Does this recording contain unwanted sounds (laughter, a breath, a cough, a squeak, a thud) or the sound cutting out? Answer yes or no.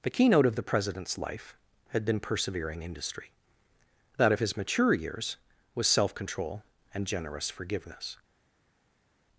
no